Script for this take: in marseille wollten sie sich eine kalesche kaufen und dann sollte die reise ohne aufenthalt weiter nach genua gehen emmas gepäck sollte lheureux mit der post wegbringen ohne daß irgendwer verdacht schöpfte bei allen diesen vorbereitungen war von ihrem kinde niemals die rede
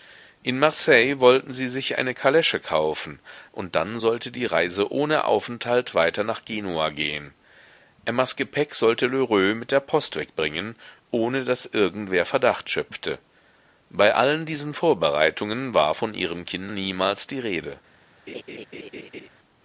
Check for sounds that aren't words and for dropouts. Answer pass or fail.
fail